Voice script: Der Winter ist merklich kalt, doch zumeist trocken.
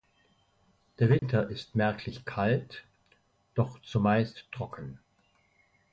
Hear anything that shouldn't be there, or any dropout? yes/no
yes